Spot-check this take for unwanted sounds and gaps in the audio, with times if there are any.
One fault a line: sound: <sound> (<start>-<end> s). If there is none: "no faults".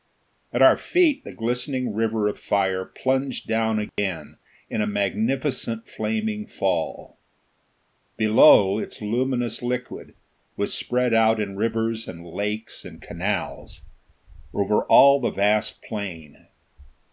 sound: dropout (3.9-4.0 s)